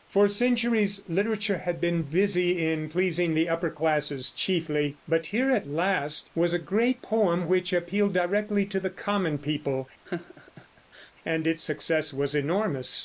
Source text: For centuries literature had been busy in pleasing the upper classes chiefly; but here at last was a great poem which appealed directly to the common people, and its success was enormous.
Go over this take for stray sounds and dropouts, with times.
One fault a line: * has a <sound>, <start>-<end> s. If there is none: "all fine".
* has a laugh, 10.0-11.1 s